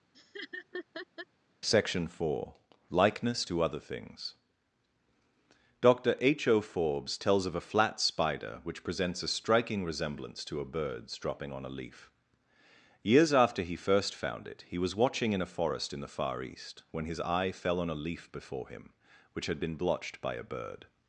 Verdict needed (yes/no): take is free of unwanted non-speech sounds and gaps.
no